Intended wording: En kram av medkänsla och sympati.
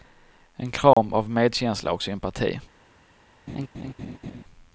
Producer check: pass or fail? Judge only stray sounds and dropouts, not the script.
fail